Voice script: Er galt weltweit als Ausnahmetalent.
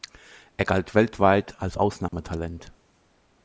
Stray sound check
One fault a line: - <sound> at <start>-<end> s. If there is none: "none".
- dropout at 2.1-2.1 s